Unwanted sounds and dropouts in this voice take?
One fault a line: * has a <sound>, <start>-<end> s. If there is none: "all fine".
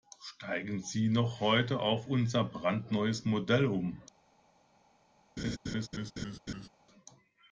* has a laugh, 5.4-6.7 s